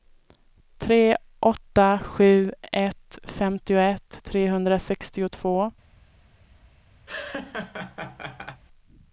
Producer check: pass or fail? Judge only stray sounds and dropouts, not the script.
fail